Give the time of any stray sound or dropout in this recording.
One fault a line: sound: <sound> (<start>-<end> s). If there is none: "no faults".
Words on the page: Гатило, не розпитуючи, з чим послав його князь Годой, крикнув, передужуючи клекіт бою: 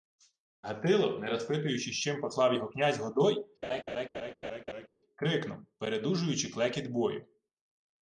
sound: laugh (3.6-4.9 s)